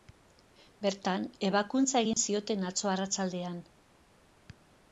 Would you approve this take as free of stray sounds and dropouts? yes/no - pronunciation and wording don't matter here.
no